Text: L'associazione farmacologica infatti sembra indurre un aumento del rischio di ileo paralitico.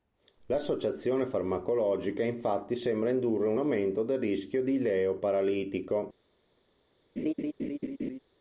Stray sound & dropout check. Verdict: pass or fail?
fail